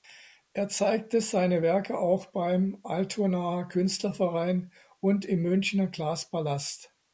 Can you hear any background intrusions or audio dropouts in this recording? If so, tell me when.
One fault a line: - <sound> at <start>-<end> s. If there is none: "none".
none